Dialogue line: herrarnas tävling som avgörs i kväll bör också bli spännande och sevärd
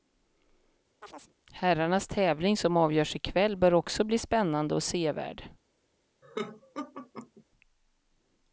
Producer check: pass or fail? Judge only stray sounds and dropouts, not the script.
fail